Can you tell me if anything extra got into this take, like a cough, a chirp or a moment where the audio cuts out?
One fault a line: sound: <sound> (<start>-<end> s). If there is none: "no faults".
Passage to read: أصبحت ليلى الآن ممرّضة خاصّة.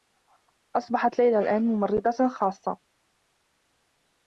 no faults